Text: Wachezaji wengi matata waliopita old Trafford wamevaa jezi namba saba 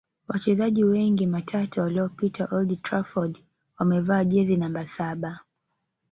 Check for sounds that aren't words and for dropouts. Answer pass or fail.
pass